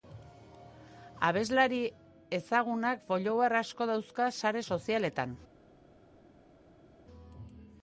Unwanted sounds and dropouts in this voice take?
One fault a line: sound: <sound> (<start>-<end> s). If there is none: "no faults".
no faults